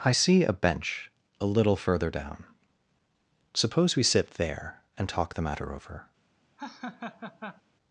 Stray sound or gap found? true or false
true